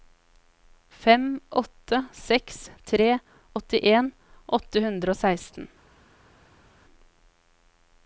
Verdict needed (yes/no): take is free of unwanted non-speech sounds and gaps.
yes